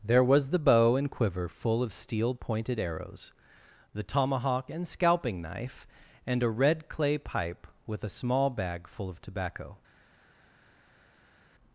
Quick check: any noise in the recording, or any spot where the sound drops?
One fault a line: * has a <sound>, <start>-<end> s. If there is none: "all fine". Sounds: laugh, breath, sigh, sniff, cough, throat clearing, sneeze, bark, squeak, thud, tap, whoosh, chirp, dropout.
all fine